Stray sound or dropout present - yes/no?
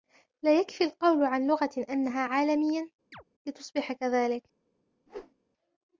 yes